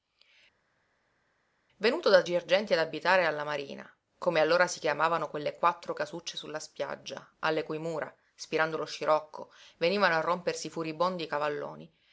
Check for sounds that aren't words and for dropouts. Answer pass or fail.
pass